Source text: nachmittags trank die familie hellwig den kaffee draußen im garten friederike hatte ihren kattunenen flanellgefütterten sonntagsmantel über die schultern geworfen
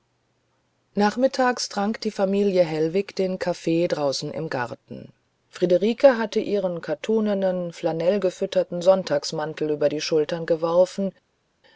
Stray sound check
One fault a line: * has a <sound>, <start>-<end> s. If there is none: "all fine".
all fine